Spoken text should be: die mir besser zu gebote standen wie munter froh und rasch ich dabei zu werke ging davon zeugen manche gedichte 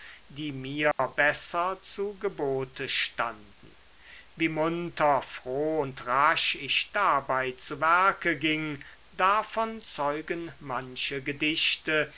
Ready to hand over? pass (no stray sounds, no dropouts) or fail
fail